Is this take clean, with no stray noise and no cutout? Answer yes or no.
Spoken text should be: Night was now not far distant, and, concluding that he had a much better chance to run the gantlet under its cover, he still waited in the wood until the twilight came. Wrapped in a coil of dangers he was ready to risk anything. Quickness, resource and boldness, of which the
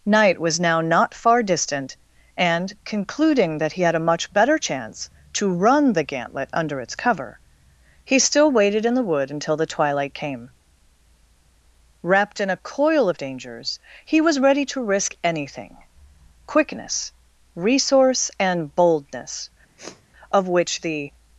no